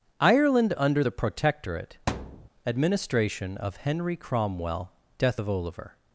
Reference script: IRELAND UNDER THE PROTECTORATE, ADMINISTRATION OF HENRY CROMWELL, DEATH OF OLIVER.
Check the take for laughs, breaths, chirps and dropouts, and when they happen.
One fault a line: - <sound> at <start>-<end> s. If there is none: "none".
- thud at 2.1-2.5 s